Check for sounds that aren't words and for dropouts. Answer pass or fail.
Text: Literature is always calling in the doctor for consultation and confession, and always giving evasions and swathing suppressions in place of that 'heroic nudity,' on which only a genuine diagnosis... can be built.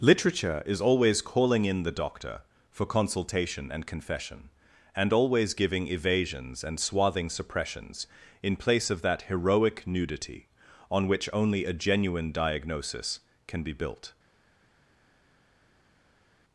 pass